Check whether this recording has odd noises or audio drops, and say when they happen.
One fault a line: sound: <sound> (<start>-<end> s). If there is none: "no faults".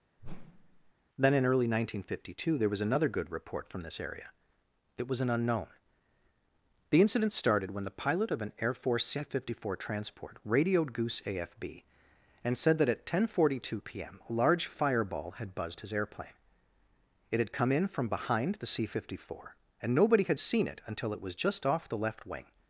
sound: whoosh (0.2-0.9 s)